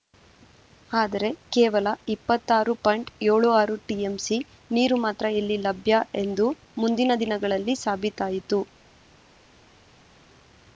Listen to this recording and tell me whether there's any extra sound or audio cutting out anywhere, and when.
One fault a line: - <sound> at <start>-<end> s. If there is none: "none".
none